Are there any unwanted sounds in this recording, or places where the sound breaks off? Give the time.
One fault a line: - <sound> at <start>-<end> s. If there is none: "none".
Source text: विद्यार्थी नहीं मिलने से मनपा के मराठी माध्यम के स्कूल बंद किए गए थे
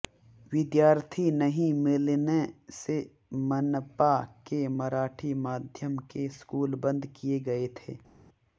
none